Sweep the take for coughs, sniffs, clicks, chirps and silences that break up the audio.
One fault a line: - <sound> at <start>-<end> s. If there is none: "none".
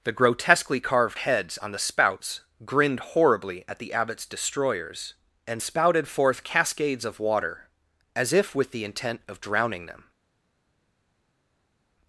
none